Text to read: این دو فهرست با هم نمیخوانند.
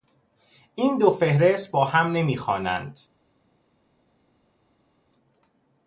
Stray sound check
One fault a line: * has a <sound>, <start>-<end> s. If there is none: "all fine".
all fine